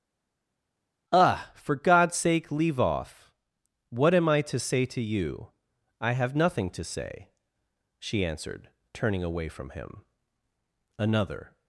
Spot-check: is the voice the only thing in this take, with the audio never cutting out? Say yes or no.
yes